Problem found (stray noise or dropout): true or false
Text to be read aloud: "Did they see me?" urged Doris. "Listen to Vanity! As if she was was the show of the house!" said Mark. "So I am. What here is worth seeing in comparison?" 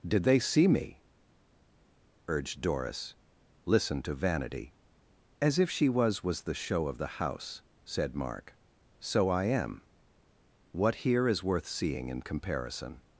false